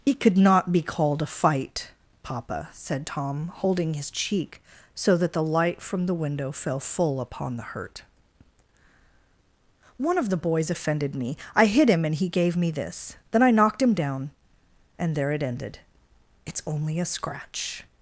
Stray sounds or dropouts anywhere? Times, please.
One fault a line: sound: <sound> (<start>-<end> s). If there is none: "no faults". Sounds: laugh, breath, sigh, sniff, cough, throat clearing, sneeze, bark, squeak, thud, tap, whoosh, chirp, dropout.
no faults